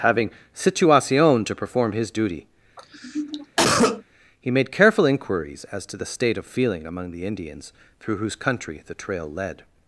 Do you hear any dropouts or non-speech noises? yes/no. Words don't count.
yes